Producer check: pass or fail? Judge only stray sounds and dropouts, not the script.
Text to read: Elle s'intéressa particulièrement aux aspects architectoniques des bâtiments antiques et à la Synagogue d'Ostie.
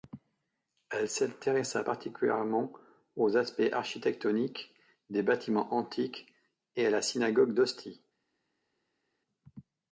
pass